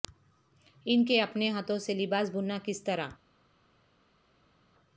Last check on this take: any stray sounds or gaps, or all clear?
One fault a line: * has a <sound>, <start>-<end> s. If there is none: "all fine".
all fine